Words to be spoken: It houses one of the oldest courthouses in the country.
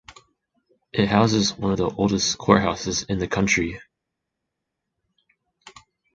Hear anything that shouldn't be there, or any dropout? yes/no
no